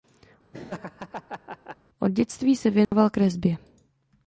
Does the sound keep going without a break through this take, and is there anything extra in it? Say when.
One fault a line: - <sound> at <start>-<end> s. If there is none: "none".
- laugh at 0.5-1.8 s
- dropout at 2.8-2.9 s